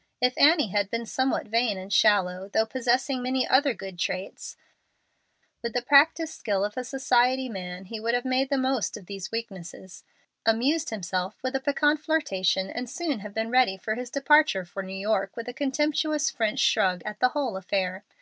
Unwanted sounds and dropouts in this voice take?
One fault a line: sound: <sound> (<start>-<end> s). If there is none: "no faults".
no faults